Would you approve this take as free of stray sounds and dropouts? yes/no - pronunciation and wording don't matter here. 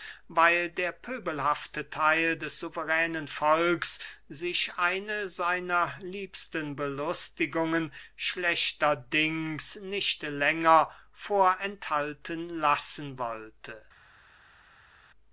yes